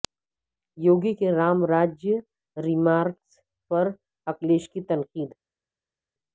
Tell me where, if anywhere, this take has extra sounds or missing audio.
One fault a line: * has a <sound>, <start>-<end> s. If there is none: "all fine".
all fine